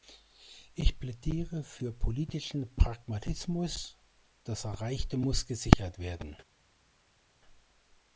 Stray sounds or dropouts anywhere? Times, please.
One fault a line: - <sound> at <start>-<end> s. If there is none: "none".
none